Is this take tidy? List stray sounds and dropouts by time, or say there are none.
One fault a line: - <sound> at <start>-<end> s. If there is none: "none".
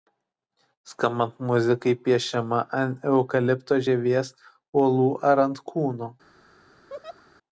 - laugh at 6.9-7.2 s